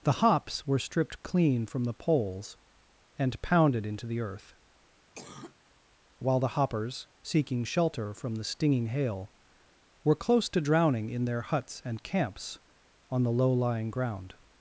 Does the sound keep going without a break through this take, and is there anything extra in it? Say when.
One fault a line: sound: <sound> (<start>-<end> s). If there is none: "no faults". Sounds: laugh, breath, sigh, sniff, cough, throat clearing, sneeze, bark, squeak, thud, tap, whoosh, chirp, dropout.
sound: cough (5.1-5.5 s)